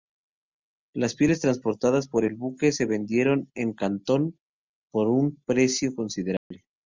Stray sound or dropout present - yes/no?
yes